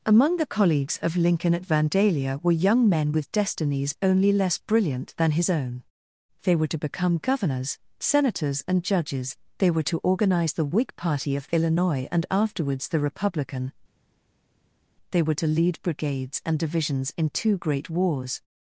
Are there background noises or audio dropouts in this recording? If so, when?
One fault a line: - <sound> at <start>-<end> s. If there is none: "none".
none